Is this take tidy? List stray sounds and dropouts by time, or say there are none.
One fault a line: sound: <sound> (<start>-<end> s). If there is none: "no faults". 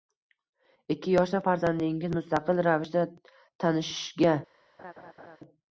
sound: laugh (4.8-5.4 s)